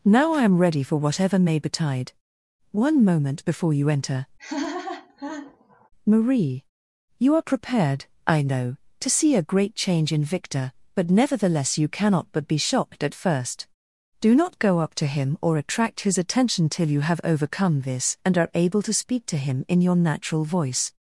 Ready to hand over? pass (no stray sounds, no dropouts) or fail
fail